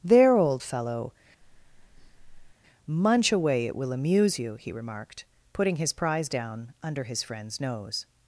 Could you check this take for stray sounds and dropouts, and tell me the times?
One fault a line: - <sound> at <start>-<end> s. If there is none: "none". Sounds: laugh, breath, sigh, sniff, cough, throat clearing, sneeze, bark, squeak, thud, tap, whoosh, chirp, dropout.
- breath at 1.4-2.5 s